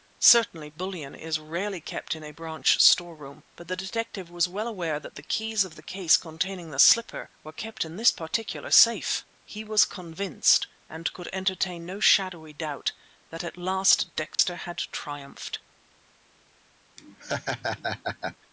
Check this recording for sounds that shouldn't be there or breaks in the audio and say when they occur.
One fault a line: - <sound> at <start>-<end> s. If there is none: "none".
- dropout at 14.3-14.4 s
- laugh at 17.0-18.4 s